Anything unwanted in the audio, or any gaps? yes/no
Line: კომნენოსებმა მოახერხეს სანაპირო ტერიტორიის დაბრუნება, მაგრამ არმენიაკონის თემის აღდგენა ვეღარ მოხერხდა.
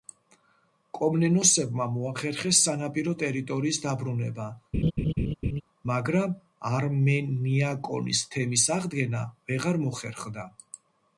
yes